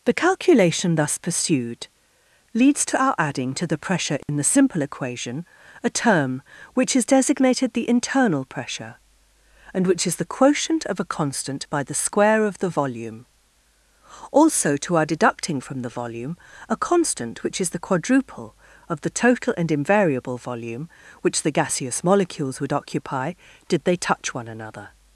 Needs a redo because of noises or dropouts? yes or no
yes